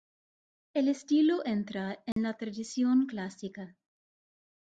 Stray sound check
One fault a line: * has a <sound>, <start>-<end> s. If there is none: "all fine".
* has a dropout, 2.1-2.2 s